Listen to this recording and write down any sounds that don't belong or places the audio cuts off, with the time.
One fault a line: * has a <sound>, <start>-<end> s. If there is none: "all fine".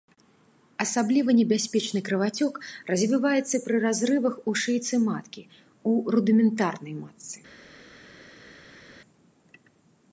all fine